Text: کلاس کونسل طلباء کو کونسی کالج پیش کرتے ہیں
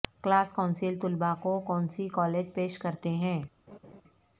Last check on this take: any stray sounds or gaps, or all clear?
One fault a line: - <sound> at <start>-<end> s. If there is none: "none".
- laugh at 3.7-4.0 s